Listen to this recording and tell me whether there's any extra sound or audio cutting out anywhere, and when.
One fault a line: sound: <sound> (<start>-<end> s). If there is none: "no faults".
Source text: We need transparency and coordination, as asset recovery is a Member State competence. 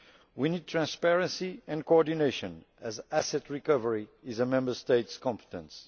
no faults